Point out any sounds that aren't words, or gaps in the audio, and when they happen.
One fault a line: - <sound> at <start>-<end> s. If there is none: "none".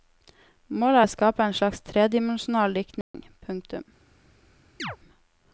- dropout at 3.0-3.1 s
- chirp at 4.8-5.0 s